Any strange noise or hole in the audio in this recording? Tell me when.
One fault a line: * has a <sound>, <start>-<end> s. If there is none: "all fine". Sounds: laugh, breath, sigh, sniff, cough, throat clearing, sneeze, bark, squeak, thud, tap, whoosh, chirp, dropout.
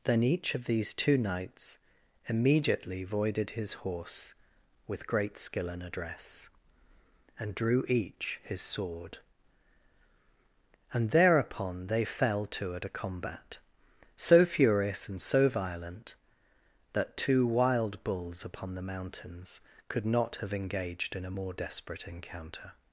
all fine